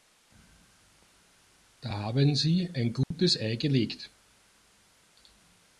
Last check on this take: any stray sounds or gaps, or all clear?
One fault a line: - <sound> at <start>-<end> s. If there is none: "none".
- dropout at 3.0-3.1 s